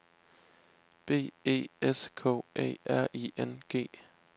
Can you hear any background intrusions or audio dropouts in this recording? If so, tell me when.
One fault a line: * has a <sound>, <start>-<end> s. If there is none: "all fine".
all fine